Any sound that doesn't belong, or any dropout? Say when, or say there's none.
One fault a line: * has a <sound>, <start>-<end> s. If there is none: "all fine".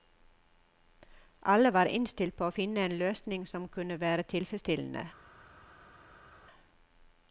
all fine